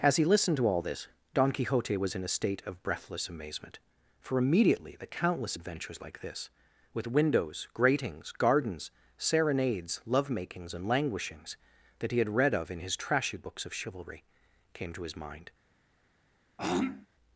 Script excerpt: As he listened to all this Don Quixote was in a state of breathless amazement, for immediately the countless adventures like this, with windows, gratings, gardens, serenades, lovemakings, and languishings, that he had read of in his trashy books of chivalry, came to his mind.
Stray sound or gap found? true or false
true